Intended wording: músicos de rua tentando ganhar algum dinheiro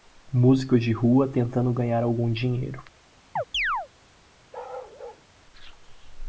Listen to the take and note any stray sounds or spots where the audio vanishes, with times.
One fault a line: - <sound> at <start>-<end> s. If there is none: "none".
- chirp at 3.4-3.9 s
- bark at 4.5-5.2 s